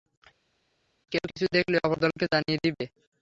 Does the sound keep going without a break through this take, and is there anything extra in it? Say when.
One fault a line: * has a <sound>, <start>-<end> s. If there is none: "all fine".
all fine